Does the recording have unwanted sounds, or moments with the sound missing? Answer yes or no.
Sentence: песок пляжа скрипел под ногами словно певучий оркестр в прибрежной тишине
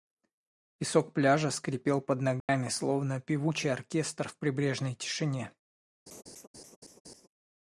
yes